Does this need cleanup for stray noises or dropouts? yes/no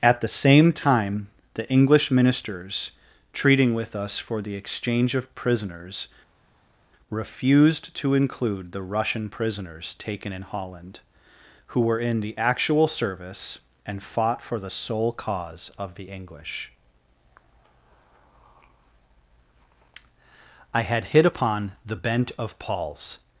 no